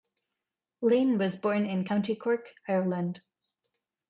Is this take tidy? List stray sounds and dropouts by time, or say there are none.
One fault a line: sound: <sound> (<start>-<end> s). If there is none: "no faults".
no faults